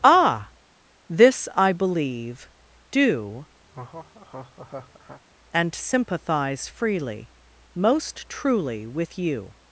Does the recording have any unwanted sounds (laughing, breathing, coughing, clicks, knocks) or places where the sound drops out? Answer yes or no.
yes